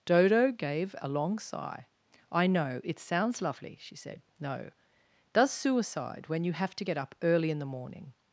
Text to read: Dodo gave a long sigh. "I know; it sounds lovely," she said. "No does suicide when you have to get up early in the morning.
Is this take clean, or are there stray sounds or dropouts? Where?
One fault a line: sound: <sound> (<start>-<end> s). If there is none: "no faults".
no faults